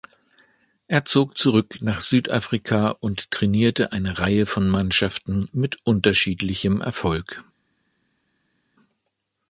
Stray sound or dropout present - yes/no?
no